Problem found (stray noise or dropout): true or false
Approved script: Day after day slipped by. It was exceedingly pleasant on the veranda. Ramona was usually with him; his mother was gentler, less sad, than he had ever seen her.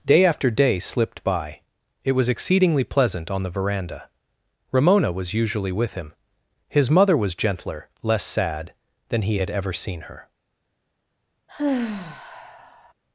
true